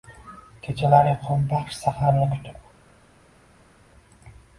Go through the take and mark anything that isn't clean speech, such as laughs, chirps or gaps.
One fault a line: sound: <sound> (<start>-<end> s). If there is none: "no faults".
no faults